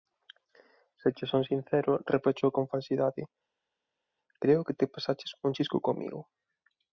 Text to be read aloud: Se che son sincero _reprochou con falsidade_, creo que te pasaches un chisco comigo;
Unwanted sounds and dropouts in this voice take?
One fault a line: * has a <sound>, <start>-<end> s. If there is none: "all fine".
all fine